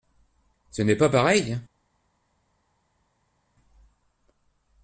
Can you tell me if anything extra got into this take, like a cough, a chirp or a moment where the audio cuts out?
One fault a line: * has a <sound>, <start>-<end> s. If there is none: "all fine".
all fine